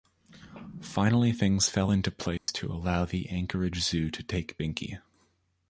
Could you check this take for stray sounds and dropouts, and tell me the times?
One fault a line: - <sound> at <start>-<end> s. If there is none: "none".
- dropout at 2.4-2.5 s